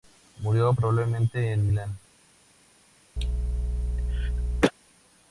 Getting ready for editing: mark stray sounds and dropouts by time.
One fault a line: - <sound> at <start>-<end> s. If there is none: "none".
- cough at 3.2-4.7 s